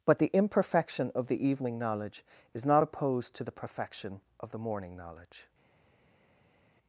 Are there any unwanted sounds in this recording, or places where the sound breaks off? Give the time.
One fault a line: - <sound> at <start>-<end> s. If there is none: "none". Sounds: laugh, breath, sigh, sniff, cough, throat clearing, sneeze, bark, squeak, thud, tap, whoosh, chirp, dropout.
none